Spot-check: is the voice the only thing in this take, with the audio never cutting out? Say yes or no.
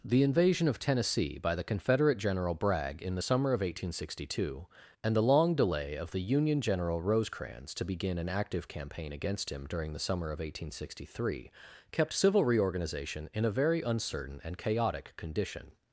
yes